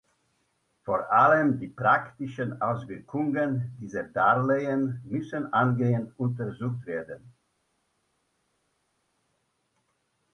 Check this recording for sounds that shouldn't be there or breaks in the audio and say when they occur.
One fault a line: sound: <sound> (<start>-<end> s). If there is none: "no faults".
no faults